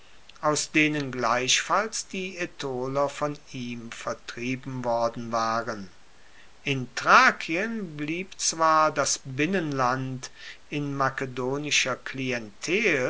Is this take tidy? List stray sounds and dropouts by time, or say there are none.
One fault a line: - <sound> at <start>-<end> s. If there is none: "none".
none